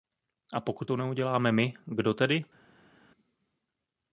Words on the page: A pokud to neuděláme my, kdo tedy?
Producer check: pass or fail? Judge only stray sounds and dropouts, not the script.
pass